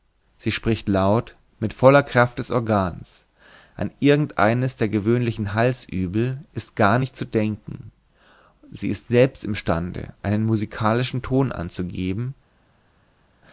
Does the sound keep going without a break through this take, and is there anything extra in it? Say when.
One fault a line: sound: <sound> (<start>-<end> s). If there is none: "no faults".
no faults